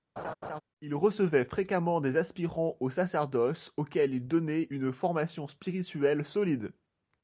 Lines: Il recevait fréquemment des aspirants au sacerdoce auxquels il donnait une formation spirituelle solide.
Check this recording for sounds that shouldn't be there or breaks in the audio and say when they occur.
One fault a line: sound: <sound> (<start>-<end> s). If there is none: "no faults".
sound: laugh (0.2-0.6 s)